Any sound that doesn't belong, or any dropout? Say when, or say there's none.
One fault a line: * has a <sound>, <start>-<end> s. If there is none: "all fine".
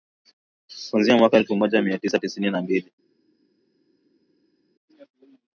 all fine